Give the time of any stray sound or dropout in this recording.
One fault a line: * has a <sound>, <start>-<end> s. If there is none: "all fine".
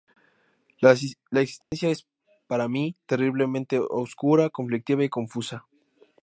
* has a dropout, 1.6-1.7 s